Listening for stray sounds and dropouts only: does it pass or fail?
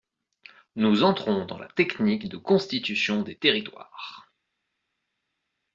pass